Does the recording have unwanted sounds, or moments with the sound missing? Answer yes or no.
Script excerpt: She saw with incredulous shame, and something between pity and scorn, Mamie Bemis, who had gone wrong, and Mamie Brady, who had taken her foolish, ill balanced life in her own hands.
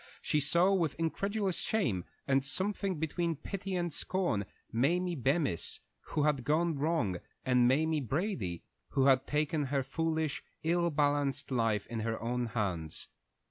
no